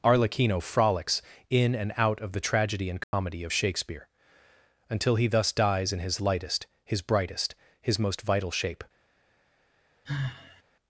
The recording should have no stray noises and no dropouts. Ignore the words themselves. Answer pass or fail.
fail